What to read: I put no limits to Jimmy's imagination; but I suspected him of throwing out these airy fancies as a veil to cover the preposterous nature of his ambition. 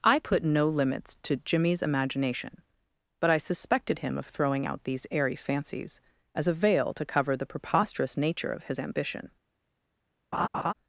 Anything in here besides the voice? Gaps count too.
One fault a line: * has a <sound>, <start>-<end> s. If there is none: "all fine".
* has a laugh, 10.3-10.7 s